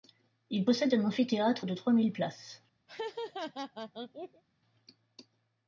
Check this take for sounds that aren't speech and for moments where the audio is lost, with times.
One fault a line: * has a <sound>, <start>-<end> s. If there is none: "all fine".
* has a laugh, 2.9-4.4 s